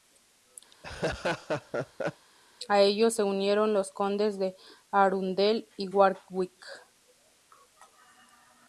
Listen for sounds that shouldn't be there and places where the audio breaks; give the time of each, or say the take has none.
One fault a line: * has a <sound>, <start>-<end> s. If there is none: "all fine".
* has a laugh, 0.7-2.3 s